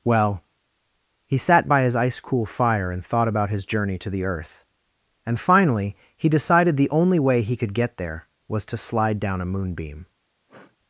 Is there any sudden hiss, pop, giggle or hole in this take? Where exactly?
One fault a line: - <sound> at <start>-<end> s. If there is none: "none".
- sniff at 10.5-10.8 s